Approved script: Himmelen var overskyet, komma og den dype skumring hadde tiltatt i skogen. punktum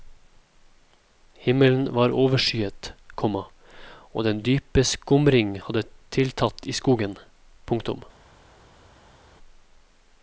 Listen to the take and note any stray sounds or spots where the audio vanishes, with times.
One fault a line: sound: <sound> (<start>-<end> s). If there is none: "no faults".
no faults